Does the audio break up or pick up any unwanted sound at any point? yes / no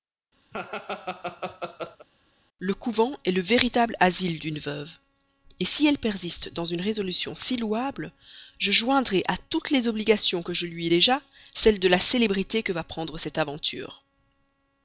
yes